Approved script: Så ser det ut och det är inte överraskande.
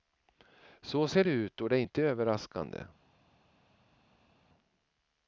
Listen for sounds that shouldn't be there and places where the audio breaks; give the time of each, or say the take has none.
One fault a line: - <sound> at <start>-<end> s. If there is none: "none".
none